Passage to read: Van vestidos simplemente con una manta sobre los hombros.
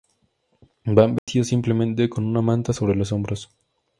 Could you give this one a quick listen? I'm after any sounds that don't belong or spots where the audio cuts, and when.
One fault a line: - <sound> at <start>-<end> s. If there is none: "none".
- dropout at 1.2-1.3 s